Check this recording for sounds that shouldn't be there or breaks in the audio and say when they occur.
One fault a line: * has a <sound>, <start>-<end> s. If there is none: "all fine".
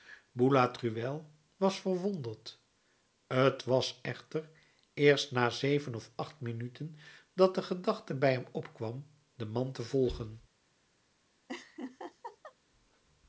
* has a laugh, 11.5-12.6 s